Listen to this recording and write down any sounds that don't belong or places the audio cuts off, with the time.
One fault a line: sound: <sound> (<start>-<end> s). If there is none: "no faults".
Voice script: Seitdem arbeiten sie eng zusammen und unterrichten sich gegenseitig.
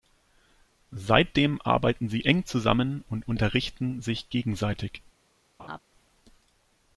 sound: laugh (5.6-5.8 s)